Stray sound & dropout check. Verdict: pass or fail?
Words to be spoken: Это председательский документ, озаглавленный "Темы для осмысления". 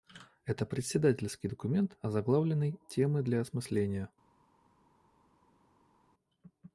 pass